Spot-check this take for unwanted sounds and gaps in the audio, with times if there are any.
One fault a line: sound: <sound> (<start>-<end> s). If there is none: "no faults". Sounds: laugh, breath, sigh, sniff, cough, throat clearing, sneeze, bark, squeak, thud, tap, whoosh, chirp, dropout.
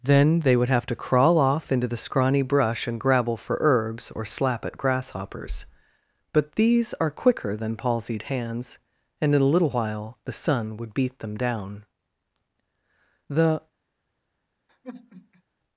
sound: sigh (14.7-15.4 s)